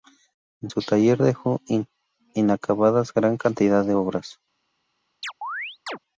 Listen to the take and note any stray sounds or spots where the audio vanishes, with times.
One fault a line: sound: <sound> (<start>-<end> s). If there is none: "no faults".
sound: chirp (5.2-6.0 s)